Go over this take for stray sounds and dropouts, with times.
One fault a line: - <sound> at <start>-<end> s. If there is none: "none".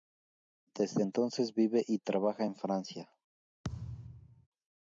- thud at 3.6-4.5 s